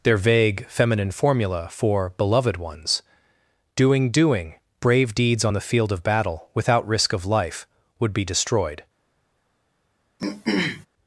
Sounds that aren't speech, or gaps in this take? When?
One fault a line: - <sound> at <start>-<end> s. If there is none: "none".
- throat clearing at 10.2-10.9 s